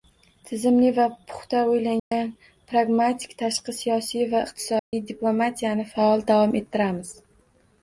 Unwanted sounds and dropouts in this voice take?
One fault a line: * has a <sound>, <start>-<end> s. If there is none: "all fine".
* has a dropout, 2.0-2.1 s
* has a dropout, 4.8-4.9 s